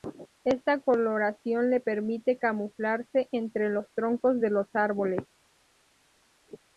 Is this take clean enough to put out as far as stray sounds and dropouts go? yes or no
yes